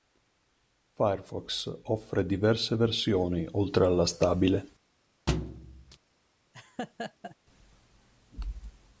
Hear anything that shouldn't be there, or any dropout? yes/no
yes